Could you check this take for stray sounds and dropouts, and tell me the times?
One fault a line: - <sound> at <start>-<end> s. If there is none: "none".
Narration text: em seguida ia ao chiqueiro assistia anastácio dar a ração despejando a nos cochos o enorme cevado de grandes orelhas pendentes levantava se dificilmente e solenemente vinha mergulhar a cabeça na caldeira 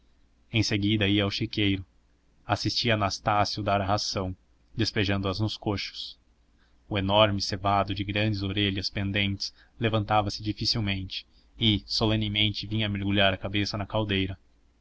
none